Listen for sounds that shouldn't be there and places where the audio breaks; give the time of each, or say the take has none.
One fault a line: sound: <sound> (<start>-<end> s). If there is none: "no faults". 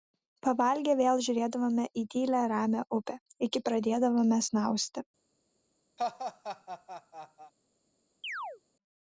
sound: laugh (6.0-7.5 s)
sound: chirp (8.2-8.6 s)